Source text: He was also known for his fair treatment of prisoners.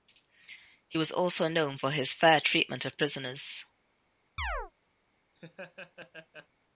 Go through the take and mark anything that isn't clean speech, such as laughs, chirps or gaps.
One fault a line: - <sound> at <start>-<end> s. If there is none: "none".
- chirp at 4.4-4.7 s
- laugh at 5.4-6.5 s